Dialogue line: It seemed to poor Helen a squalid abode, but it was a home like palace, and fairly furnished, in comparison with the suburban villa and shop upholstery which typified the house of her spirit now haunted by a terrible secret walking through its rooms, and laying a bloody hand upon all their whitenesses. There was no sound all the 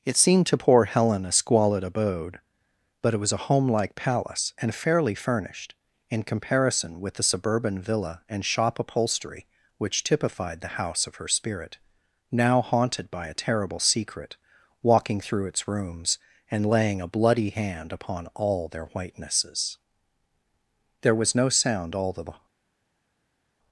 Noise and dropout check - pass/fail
pass